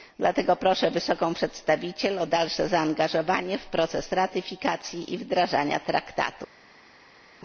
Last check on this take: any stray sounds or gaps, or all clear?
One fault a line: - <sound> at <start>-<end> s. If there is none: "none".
none